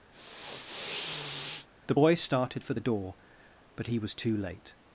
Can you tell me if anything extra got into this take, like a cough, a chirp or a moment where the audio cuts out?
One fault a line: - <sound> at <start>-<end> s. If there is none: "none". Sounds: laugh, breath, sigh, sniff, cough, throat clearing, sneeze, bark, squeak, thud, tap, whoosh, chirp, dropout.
- sniff at 0.1-1.7 s